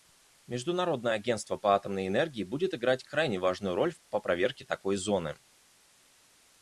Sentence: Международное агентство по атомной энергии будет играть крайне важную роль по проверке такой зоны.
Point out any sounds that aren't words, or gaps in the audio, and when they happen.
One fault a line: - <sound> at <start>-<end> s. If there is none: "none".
none